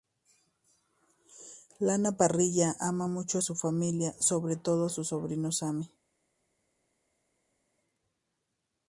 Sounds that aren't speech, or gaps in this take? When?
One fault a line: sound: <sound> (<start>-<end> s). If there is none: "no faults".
no faults